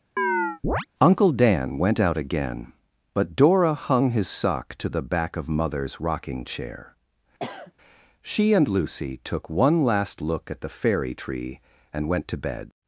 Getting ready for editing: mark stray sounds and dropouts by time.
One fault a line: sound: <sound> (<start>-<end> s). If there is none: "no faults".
sound: chirp (0.2-0.9 s)
sound: sniff (7.4-7.7 s)